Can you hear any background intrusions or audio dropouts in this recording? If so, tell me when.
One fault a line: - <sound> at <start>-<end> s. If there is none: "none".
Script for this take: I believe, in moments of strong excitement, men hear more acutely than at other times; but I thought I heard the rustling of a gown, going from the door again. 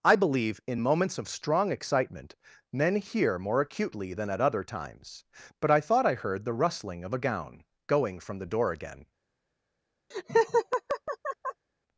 - laugh at 10.1-11.7 s